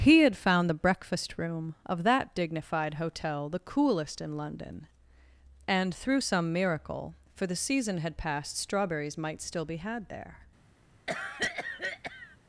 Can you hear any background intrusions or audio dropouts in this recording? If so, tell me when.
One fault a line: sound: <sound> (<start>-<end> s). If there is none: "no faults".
sound: cough (11.1-12.4 s)